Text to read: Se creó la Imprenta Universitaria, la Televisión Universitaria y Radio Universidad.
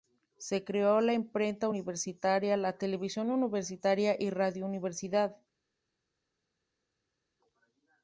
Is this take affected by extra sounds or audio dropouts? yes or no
no